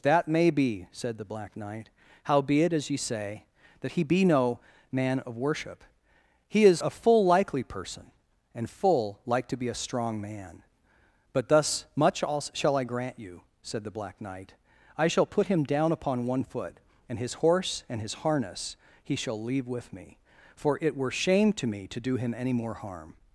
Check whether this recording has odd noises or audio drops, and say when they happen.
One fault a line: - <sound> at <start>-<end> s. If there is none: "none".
none